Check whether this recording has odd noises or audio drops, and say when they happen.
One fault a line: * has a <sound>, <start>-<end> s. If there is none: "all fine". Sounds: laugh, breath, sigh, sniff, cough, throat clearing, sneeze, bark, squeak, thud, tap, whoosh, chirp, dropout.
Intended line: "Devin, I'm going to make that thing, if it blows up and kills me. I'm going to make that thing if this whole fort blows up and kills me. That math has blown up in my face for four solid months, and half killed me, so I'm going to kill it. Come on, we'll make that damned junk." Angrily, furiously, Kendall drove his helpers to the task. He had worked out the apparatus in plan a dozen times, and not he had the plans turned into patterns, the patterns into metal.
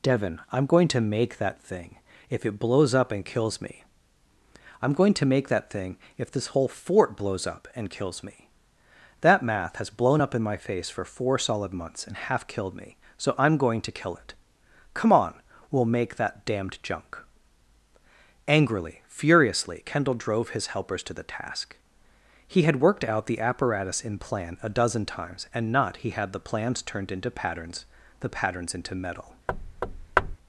* has a thud, 29.5-30.4 s